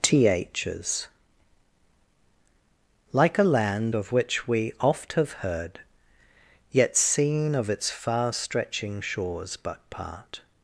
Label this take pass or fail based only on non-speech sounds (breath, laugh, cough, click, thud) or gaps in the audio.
pass